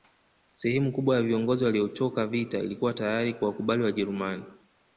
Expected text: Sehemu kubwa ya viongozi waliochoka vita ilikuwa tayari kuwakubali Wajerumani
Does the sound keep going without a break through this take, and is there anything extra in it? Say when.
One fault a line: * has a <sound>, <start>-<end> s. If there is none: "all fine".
all fine